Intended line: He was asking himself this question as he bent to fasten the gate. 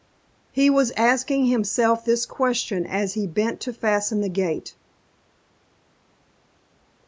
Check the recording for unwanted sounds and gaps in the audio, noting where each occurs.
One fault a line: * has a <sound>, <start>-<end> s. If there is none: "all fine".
all fine